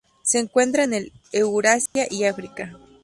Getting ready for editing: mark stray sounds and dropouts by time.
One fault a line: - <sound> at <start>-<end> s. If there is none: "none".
- dropout at 1.9-2.0 s